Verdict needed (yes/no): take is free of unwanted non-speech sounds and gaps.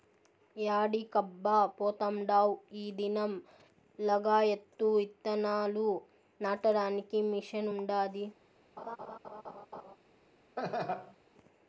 no